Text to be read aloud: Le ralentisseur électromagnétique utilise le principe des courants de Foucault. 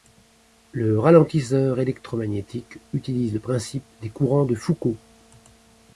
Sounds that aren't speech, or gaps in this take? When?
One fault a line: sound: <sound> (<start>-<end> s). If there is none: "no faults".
no faults